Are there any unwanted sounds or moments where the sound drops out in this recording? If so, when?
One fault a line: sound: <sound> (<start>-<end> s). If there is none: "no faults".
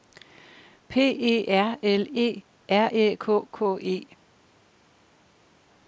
no faults